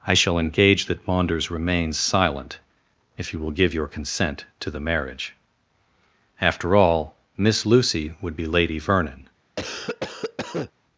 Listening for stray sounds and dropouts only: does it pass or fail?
fail